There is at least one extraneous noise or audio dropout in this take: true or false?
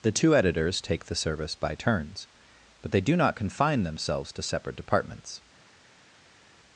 false